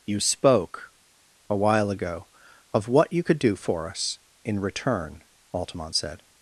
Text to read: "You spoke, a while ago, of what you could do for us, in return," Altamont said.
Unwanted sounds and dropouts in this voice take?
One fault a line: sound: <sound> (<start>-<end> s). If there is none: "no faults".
no faults